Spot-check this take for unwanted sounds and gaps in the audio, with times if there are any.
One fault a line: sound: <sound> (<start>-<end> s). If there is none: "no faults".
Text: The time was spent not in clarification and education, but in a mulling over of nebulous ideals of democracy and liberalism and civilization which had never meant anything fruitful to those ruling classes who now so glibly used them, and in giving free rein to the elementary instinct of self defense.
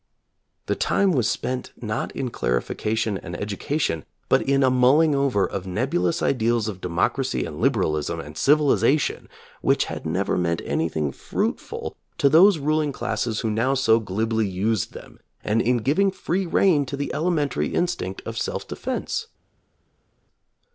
no faults